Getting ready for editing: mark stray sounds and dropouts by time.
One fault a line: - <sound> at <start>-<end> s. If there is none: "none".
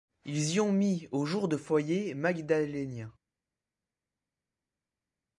none